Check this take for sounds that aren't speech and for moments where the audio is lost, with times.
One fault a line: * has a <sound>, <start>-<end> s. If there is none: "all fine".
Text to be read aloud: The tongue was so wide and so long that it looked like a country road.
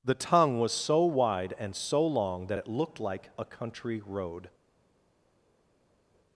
all fine